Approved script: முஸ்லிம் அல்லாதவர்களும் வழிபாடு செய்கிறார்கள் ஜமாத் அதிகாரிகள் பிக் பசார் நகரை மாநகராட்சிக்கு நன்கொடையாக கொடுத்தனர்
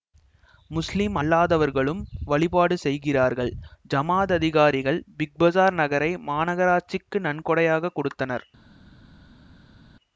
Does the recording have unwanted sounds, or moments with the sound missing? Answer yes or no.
no